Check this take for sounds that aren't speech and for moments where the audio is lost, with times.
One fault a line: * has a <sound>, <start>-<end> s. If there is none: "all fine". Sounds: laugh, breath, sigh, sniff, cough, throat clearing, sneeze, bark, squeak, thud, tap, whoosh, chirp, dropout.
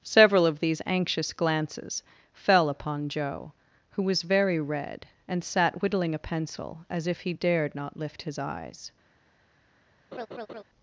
* has a laugh, 10.1-10.6 s